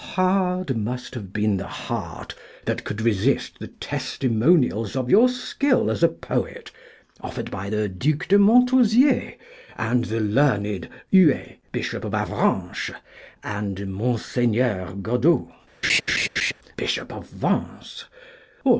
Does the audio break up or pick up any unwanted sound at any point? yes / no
yes